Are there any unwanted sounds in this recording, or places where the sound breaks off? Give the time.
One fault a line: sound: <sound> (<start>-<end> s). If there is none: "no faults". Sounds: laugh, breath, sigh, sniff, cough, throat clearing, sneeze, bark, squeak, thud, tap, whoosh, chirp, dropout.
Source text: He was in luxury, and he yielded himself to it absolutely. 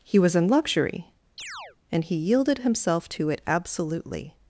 sound: chirp (1.4-1.8 s)